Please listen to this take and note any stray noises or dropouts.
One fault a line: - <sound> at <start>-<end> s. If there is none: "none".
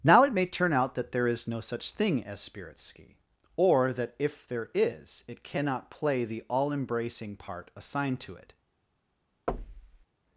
- thud at 9.5-10.1 s